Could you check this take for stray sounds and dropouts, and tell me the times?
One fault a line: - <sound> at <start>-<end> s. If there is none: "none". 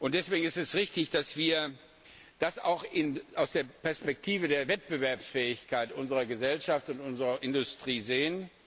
none